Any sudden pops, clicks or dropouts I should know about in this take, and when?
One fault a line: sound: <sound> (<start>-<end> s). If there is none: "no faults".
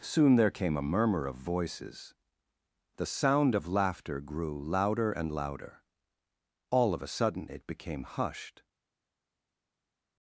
no faults